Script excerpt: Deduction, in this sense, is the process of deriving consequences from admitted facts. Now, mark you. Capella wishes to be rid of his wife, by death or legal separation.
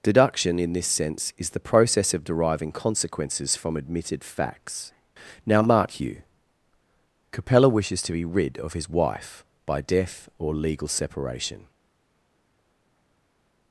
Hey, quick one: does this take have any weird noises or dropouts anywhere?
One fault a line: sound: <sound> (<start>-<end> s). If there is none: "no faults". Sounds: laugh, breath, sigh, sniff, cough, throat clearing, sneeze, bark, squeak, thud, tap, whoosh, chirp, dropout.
no faults